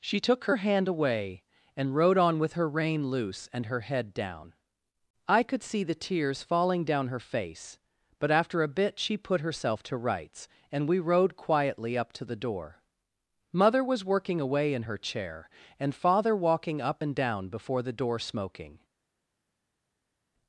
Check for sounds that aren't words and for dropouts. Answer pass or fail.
pass